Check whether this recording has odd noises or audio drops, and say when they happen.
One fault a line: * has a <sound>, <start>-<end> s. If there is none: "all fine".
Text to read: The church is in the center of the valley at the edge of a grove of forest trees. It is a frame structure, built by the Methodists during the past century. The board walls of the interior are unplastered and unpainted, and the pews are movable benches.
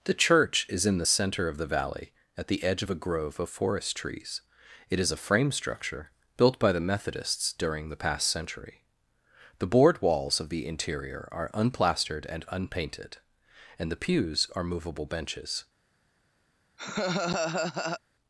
* has a laugh, 16.8-18.0 s